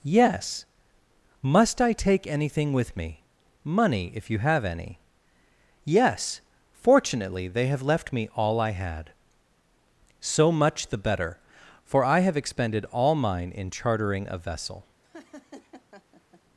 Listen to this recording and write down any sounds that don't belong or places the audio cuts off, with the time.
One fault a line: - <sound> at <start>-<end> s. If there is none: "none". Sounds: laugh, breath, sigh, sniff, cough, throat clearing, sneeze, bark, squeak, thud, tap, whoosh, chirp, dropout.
- laugh at 15.0-16.4 s